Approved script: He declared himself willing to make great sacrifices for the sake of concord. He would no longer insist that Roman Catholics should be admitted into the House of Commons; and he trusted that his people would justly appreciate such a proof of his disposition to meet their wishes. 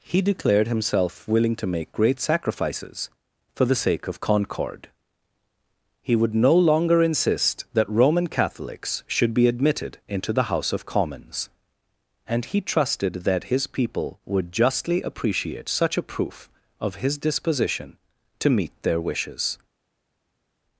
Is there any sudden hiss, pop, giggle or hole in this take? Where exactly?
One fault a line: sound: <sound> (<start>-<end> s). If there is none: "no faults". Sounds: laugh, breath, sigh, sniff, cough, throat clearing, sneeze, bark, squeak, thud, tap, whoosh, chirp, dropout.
no faults